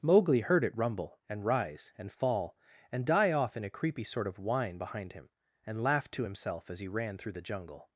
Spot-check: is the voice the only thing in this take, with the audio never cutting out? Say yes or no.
yes